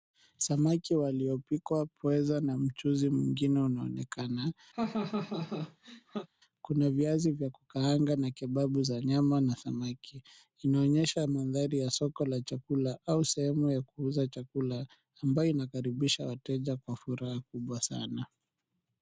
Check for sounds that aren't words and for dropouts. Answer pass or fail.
fail